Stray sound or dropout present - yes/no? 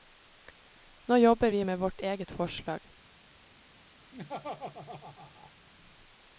yes